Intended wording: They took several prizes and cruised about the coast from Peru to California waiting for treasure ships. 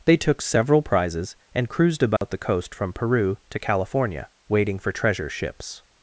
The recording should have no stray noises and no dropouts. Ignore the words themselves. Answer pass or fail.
fail